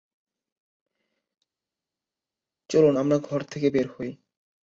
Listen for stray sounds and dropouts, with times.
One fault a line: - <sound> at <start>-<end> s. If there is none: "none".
none